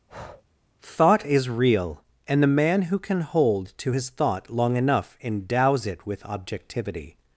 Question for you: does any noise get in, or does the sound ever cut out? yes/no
yes